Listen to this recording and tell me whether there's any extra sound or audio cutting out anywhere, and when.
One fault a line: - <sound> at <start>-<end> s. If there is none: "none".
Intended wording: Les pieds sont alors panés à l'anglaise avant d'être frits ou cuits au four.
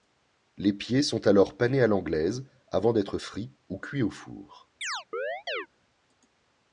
- chirp at 4.8-5.7 s